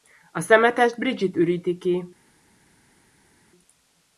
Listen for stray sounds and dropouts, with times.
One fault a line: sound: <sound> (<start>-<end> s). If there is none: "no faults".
no faults